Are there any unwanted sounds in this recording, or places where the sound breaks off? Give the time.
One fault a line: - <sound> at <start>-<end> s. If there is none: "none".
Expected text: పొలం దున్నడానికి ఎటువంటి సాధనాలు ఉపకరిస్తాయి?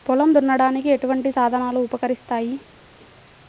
none